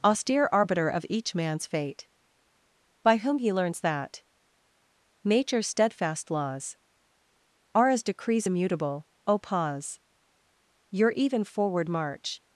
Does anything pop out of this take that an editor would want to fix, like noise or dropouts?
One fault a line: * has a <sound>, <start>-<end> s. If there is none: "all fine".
all fine